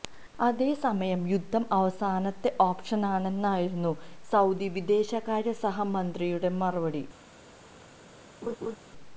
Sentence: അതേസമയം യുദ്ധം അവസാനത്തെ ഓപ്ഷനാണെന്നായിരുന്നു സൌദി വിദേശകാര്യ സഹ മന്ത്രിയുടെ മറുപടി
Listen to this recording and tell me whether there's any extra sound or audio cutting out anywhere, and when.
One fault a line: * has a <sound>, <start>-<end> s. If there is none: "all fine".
* has a laugh, 8.4-8.8 s